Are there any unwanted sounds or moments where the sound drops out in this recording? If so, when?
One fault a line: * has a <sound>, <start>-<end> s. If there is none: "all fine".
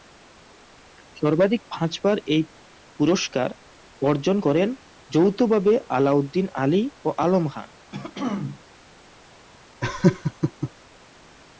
* has a throat clearing, 7.9-8.6 s
* has a laugh, 9.8-10.7 s